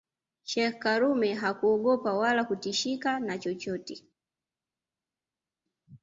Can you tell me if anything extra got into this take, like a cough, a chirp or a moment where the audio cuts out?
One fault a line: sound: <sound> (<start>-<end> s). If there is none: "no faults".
no faults